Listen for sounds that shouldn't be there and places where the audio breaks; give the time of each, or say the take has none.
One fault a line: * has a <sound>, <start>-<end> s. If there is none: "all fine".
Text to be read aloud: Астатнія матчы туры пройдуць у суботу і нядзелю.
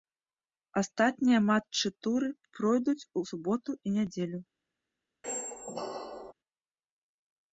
* has a squeak, 5.2-6.3 s